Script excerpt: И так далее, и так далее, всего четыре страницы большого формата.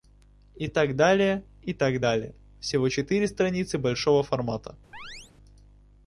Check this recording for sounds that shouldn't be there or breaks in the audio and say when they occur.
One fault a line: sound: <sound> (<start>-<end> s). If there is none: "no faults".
sound: chirp (4.9-5.3 s)